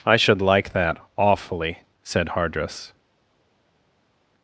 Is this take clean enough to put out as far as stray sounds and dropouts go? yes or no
yes